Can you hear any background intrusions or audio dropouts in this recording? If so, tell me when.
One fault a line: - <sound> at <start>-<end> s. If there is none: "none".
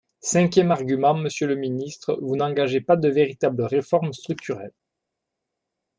none